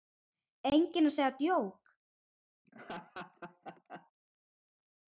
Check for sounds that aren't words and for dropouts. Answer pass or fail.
fail